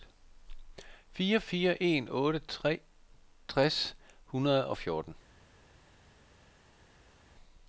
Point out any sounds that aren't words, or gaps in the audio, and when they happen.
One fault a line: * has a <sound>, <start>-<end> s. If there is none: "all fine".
all fine